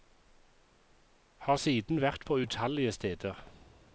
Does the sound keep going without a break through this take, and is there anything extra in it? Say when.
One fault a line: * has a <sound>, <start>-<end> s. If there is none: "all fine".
all fine